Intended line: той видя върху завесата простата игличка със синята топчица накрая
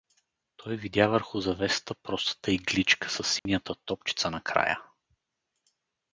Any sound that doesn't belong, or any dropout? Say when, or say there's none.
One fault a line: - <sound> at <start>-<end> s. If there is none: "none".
- dropout at 3.4-3.5 s